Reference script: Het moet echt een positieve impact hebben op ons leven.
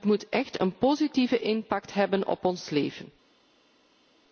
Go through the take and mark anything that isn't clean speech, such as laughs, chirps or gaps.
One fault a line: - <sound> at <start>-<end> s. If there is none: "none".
none